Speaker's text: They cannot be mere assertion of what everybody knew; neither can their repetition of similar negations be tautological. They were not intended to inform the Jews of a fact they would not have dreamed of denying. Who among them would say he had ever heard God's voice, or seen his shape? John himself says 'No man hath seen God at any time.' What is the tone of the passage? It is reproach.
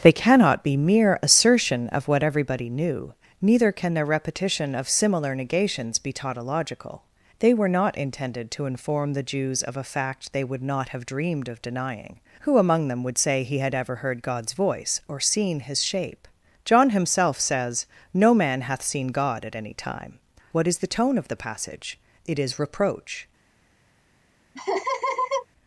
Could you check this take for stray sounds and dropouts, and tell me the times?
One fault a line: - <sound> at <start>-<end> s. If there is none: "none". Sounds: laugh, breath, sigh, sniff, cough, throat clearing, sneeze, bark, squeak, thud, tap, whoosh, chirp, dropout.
- laugh at 24.5-25.5 s